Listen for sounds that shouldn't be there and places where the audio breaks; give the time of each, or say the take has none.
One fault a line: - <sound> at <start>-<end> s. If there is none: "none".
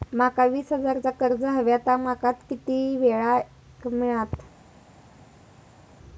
none